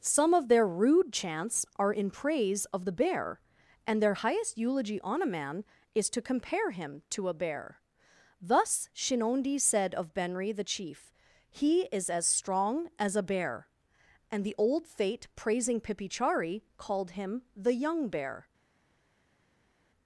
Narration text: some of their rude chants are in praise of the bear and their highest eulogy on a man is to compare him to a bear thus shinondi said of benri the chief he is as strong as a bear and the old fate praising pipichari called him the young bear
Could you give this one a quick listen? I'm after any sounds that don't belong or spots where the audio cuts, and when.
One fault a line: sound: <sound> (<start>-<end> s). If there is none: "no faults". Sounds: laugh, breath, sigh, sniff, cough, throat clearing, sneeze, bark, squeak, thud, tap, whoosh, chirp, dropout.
no faults